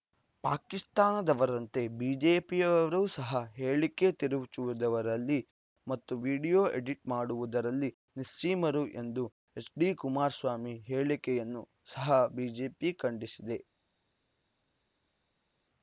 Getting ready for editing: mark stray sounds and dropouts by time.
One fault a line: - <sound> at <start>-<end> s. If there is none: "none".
none